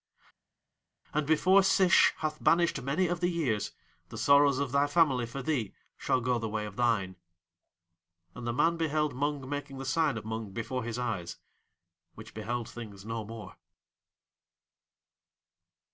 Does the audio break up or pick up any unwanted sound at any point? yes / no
no